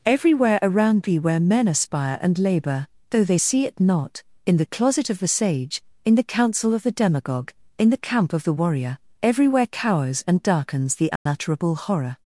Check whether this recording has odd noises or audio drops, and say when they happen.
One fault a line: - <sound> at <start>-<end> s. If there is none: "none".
- dropout at 11.2-11.3 s